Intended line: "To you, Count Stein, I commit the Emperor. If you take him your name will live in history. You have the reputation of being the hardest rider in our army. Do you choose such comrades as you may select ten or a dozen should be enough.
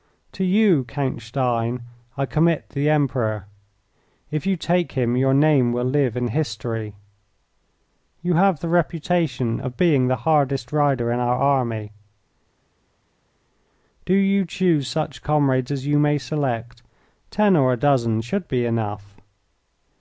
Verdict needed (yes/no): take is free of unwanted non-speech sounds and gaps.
yes